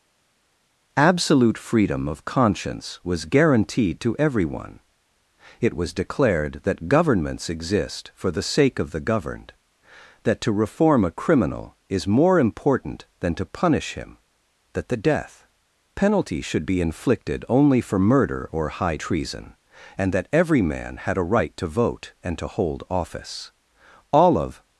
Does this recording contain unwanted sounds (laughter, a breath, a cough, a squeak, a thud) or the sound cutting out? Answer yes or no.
no